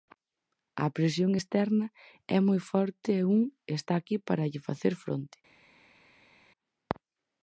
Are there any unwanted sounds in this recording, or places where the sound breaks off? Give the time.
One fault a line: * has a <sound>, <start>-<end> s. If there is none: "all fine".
all fine